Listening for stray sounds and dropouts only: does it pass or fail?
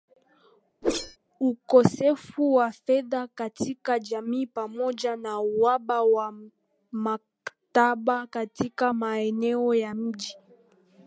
fail